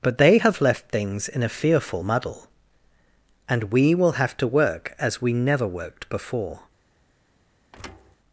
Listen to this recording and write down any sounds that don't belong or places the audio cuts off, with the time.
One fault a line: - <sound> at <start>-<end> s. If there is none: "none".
- thud at 7.7-8.2 s